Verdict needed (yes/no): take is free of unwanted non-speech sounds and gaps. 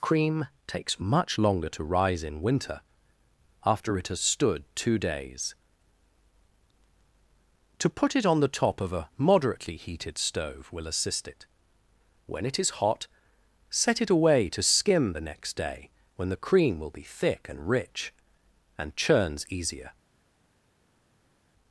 yes